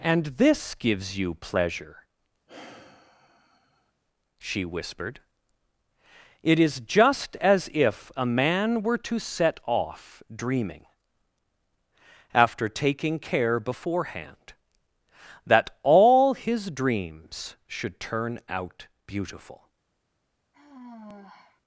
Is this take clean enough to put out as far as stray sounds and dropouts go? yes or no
no